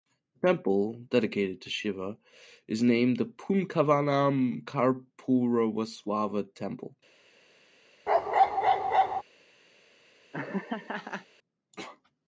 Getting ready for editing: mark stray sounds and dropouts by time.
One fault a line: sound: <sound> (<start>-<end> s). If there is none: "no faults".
sound: bark (8.1-9.2 s)
sound: laugh (10.3-11.3 s)